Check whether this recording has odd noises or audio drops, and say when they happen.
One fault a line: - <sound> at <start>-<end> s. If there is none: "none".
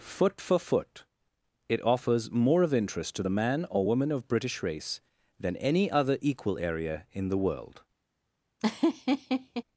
- laugh at 8.6-9.6 s